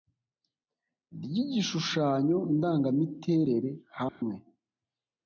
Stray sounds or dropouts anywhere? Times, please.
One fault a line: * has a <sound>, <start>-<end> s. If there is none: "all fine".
* has a dropout, 4.1-4.2 s